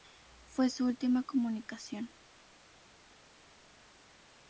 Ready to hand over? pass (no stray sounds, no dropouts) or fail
pass